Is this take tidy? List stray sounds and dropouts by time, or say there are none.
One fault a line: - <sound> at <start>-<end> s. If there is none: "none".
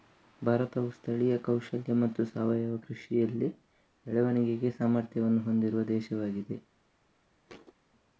- thud at 7.5-7.7 s